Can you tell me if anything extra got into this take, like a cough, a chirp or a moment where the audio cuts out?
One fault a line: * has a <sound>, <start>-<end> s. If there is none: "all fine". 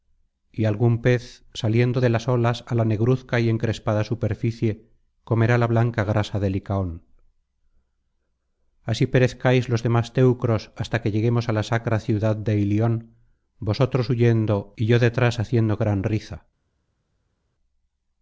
all fine